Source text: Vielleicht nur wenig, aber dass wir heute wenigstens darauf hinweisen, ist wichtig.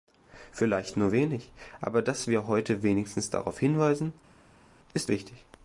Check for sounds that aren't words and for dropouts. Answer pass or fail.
pass